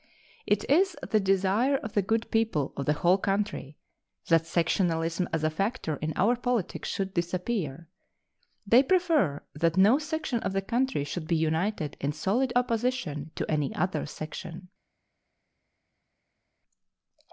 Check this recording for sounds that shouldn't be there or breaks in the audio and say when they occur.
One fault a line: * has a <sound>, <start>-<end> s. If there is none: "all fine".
all fine